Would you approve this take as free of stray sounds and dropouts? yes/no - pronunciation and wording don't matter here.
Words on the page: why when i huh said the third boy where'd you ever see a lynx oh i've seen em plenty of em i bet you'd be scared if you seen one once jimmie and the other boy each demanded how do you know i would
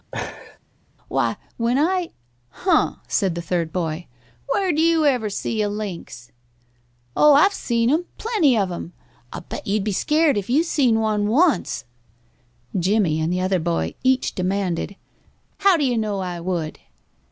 no